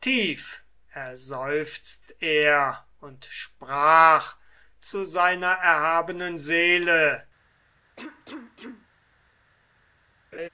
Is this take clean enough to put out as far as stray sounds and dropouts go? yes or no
no